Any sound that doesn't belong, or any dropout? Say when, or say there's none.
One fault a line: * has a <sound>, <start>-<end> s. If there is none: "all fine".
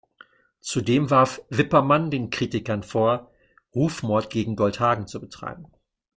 all fine